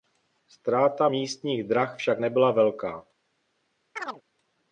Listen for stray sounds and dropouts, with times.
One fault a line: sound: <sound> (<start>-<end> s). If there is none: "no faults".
sound: chirp (4.0-4.2 s)